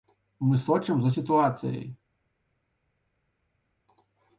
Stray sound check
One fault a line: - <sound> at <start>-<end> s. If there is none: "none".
none